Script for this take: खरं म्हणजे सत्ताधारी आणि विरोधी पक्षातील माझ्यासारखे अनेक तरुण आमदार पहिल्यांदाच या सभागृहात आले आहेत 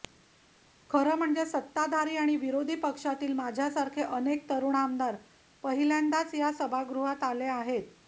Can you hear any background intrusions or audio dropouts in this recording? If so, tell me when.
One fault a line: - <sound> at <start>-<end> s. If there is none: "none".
none